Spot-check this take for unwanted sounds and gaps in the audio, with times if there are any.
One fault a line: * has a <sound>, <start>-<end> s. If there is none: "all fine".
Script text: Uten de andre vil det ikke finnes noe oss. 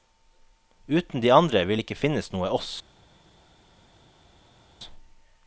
all fine